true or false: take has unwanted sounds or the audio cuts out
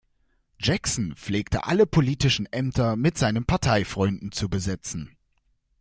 false